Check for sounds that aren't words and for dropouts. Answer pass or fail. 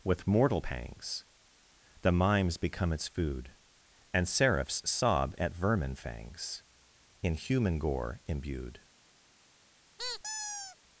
fail